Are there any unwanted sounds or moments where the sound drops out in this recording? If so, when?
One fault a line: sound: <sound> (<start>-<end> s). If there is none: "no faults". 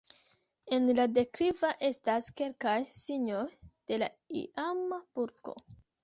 no faults